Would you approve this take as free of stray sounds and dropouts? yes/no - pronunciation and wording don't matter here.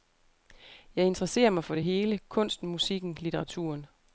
yes